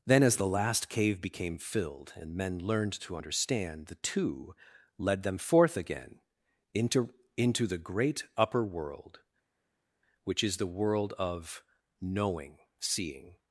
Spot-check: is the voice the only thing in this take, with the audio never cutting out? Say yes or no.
yes